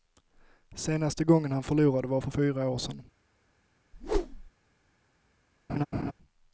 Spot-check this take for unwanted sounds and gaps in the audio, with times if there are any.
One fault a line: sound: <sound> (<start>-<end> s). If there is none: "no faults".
sound: whoosh (3.9-4.5 s)
sound: laugh (5.7-6.1 s)